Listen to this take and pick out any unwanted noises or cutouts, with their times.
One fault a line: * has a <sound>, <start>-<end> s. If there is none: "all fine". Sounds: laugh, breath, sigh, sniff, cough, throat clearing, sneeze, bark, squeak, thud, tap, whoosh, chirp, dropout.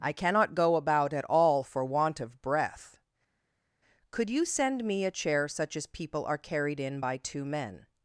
all fine